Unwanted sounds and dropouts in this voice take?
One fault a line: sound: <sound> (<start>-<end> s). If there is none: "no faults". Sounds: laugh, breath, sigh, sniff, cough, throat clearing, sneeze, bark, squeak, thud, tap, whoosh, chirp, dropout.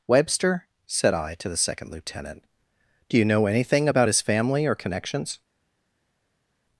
no faults